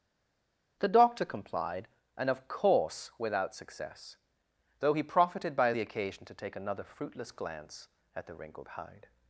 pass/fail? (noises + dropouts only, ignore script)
pass